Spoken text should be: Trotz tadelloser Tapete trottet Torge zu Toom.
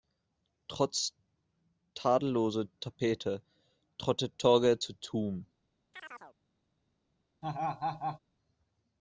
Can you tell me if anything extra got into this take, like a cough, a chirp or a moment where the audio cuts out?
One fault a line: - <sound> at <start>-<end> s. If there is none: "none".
- chirp at 5.9-6.4 s
- laugh at 7.4-8.2 s